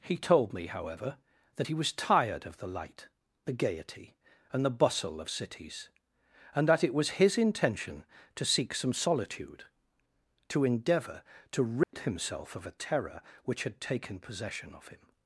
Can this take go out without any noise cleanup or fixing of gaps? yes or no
no